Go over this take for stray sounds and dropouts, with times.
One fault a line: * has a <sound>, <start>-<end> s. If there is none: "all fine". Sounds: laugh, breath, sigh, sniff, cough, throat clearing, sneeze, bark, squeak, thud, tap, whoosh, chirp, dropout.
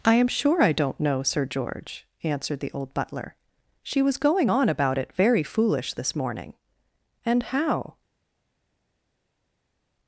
all fine